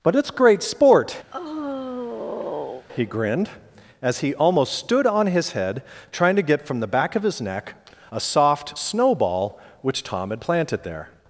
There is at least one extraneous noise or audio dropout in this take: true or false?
true